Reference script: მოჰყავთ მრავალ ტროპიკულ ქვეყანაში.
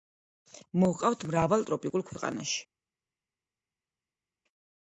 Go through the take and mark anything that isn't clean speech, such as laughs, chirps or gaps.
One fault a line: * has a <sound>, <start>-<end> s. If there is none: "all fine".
all fine